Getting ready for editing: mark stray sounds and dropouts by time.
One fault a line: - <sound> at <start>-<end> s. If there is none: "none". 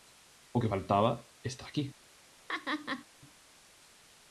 - laugh at 2.5-3.1 s